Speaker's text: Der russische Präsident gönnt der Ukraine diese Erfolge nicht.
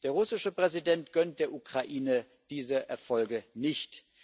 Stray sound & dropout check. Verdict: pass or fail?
pass